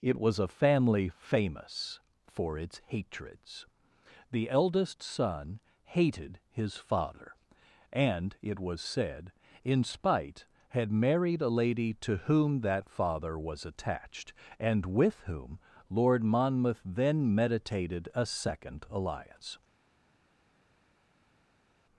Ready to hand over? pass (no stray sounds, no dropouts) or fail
pass